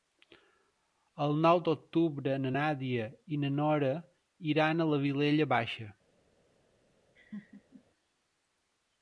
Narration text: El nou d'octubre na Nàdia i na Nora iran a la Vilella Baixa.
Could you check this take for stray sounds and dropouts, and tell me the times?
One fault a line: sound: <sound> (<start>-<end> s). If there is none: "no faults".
sound: laugh (7.2-7.8 s)